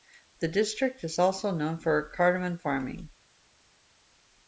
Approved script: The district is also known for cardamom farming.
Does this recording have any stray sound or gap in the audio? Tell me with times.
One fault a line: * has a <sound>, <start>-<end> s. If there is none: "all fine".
all fine